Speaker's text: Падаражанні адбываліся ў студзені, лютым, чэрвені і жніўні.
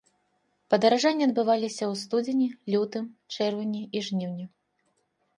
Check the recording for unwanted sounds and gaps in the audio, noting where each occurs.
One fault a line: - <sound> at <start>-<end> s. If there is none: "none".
none